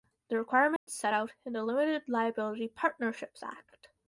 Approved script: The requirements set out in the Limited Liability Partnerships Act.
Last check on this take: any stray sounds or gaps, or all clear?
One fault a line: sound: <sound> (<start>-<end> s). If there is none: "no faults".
sound: dropout (0.8-0.9 s)